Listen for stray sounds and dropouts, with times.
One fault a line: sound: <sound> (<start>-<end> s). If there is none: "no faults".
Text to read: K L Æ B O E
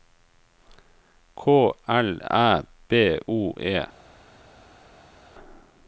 no faults